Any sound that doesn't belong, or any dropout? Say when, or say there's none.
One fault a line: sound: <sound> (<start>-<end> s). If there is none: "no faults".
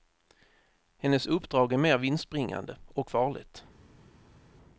no faults